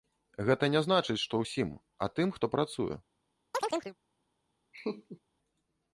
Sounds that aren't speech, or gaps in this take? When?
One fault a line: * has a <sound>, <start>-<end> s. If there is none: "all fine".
* has a chirp, 3.5-4.0 s
* has a laugh, 4.7-5.2 s